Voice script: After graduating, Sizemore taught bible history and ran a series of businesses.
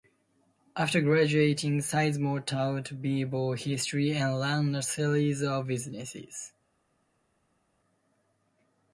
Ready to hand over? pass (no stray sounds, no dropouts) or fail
pass